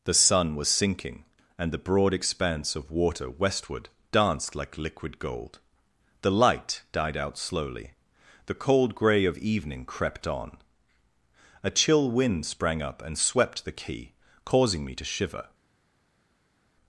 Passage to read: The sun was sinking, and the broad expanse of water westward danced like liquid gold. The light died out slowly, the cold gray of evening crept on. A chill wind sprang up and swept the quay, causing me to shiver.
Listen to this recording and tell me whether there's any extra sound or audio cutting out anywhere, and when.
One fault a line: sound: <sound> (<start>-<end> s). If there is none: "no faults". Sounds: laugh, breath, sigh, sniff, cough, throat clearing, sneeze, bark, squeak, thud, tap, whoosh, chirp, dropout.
no faults